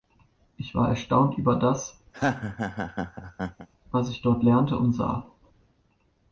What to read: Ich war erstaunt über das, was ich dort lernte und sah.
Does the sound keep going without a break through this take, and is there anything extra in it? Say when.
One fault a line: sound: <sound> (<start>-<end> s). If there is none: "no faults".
sound: laugh (2.1-3.7 s)